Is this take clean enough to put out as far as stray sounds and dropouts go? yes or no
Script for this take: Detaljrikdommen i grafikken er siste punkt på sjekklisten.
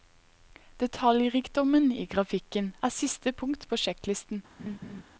no